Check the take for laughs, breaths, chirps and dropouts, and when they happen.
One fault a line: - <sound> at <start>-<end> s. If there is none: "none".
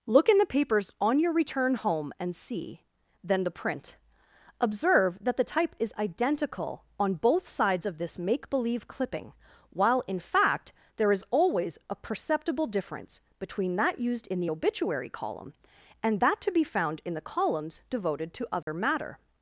- dropout at 18.6-18.7 s